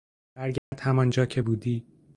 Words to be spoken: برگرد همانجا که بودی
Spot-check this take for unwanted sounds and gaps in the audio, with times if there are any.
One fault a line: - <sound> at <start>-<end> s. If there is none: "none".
- dropout at 0.6-0.7 s